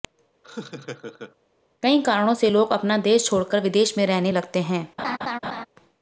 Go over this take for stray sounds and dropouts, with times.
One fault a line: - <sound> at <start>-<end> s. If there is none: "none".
- laugh at 0.4-1.4 s
- laugh at 5.0-5.7 s